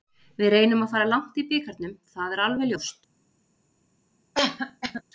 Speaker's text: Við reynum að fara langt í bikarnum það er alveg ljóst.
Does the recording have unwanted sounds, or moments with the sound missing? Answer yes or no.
yes